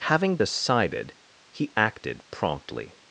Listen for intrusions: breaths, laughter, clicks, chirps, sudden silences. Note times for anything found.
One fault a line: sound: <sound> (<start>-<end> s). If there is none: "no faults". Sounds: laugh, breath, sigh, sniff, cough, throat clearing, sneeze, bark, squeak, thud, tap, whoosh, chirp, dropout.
no faults